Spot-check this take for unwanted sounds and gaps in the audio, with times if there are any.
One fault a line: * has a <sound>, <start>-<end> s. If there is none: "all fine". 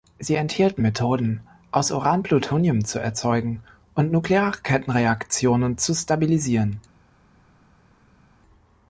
all fine